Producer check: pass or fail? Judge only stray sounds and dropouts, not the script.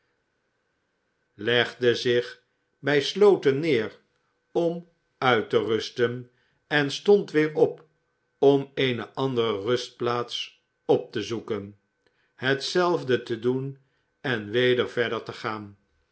pass